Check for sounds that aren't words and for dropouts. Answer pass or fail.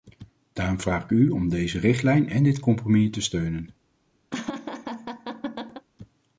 fail